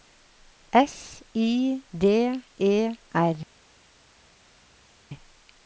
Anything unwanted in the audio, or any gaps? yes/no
no